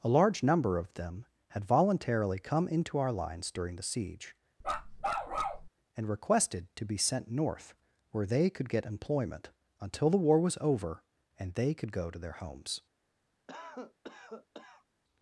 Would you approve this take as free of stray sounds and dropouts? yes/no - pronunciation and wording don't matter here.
no